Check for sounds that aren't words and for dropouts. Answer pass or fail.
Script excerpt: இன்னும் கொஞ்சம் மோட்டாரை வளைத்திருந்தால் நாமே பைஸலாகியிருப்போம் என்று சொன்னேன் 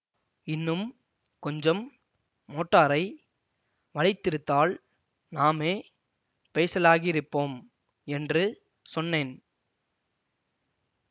pass